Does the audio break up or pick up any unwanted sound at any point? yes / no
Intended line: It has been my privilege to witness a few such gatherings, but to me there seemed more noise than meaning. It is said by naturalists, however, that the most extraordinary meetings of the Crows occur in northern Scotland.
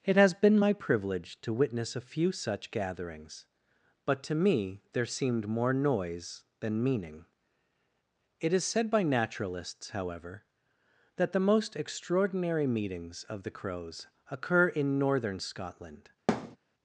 yes